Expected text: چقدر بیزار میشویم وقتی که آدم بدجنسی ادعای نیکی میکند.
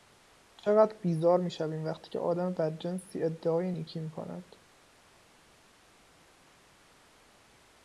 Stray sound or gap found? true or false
false